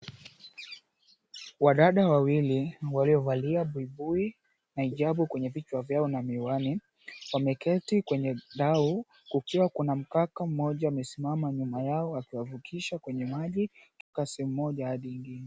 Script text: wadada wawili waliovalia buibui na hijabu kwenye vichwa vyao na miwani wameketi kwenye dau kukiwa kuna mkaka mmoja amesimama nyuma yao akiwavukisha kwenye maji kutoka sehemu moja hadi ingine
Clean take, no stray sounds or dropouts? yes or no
no